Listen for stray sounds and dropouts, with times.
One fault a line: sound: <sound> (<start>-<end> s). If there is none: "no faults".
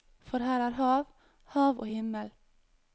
no faults